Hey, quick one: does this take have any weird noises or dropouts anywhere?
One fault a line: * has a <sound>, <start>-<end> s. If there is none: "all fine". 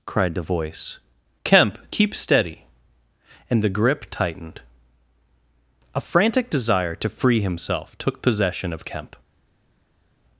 all fine